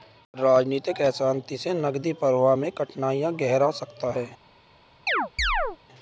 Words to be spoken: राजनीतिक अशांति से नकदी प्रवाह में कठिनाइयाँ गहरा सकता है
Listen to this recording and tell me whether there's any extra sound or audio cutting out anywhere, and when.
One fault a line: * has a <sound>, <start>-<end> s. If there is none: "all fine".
* has a chirp, 5.1-5.8 s